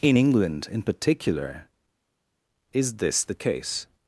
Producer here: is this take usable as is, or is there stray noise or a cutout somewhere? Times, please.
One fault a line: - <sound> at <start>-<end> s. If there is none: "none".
none